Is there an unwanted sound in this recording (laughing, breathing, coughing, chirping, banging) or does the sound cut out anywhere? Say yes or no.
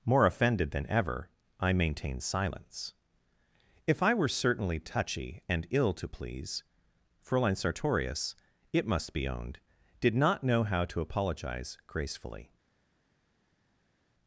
no